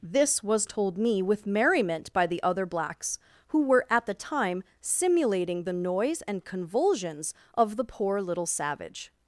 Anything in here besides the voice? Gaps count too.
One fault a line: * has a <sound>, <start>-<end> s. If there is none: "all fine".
all fine